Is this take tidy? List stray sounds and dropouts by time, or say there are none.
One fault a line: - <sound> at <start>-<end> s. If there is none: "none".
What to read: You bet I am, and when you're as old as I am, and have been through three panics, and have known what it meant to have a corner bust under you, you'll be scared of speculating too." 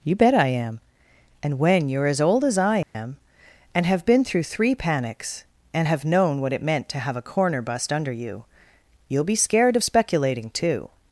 - dropout at 2.8-2.9 s